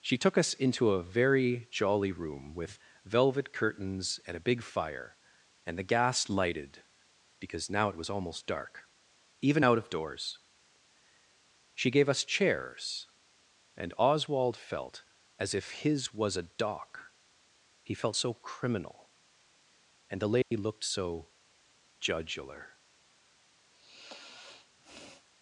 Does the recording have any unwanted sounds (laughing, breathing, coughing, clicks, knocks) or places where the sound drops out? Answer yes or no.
yes